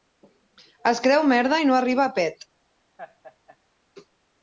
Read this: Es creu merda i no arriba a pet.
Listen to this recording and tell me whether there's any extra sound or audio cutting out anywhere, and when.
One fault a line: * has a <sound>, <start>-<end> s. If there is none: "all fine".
* has a laugh, 3.0-3.6 s